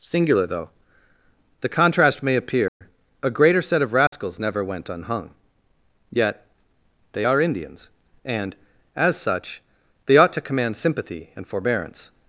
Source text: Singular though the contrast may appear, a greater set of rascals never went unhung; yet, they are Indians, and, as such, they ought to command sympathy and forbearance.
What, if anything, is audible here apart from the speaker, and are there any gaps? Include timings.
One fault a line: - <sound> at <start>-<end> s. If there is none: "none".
- dropout at 2.7-2.8 s
- dropout at 4.1-4.1 s